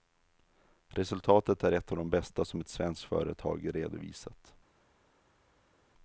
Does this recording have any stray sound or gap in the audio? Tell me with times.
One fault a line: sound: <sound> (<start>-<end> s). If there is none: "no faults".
no faults